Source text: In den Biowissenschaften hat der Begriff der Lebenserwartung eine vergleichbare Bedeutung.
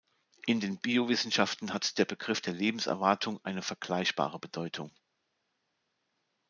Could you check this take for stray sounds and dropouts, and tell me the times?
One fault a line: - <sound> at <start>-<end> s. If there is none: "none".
none